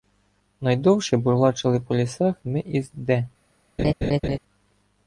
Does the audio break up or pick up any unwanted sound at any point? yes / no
yes